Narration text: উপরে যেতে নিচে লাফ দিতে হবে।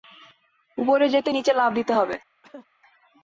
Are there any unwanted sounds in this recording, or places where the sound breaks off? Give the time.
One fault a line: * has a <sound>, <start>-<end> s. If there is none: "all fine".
* has a cough, 2.4-2.7 s